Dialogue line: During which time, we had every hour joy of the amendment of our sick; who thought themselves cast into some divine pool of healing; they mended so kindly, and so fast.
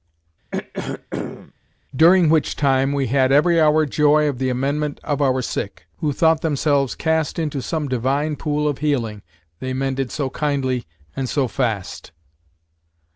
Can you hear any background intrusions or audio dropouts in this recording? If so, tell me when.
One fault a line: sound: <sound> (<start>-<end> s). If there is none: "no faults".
sound: throat clearing (0.5-1.5 s)